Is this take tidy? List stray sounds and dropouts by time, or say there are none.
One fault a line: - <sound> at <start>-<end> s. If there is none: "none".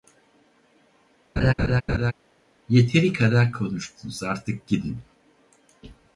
- laugh at 1.4-2.1 s